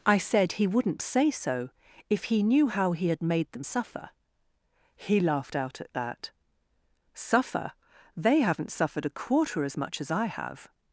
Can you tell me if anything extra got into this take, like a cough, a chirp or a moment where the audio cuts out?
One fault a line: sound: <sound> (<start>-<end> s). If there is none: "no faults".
no faults